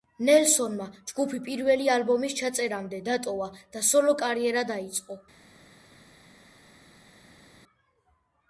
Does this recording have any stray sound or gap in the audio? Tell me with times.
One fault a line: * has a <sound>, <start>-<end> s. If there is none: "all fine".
all fine